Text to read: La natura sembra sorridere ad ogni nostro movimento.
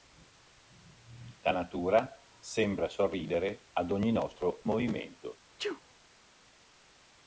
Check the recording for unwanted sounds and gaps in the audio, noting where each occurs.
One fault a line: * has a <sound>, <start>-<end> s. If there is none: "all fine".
* has a sneeze, 5.6-5.8 s